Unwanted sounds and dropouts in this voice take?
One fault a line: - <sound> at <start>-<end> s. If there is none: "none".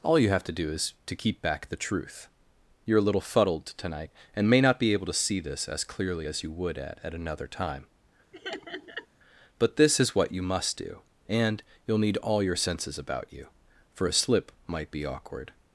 - laugh at 8.3-9.1 s